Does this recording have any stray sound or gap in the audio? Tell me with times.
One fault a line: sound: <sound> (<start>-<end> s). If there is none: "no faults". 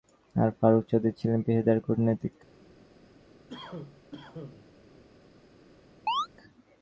sound: cough (3.5-4.7 s)
sound: chirp (6.1-6.3 s)